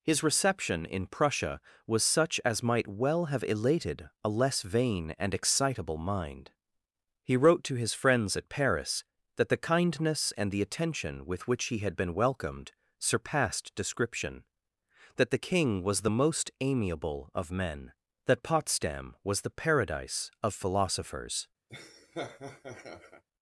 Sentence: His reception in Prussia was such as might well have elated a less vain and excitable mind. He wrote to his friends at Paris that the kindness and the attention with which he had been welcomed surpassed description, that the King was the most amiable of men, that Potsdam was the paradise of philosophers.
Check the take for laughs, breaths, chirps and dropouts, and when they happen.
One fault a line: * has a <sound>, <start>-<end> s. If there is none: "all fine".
* has a laugh, 21.7-23.2 s